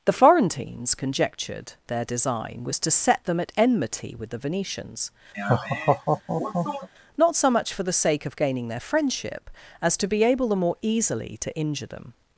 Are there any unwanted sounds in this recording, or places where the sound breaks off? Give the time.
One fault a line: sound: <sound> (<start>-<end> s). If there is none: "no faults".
sound: laugh (5.3-6.9 s)